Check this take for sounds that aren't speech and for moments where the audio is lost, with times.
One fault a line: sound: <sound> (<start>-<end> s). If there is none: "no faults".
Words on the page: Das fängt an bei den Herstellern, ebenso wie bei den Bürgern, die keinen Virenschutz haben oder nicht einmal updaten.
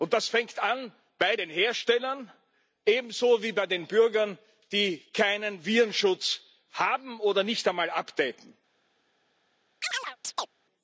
sound: chirp (9.8-10.5 s)